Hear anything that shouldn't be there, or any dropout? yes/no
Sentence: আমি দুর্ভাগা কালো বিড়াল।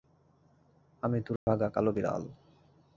yes